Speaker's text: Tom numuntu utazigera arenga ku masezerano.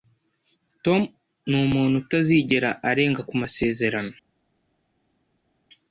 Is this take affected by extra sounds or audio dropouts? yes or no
no